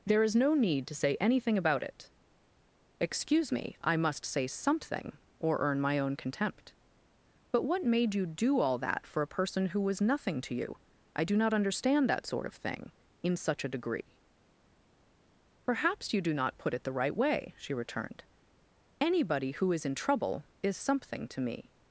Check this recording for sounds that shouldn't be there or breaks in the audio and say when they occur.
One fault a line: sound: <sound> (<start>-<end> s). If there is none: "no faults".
no faults